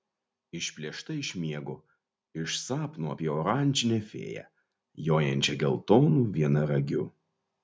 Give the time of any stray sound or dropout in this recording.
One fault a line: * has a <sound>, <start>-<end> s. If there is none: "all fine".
all fine